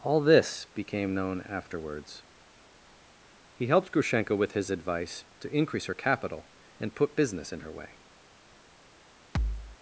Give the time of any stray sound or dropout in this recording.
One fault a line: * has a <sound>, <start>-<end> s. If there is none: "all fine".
* has a thud, 9.3-9.8 s